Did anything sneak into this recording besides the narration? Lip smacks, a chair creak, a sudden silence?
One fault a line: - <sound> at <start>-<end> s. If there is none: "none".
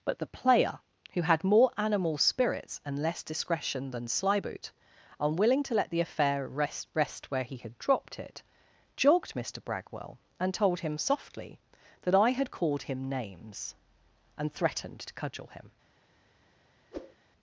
- whoosh at 16.9-17.2 s